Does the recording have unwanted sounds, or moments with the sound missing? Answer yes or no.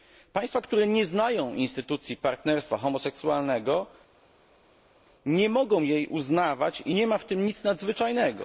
no